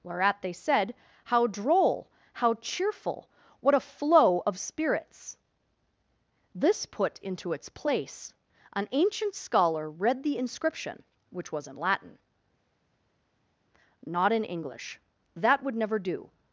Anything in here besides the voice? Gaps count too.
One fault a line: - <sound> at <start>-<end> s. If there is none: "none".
none